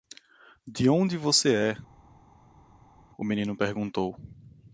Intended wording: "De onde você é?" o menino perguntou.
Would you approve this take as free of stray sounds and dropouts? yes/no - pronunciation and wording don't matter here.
yes